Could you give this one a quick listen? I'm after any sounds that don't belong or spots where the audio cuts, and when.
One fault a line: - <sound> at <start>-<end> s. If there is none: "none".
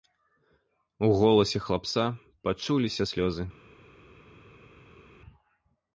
none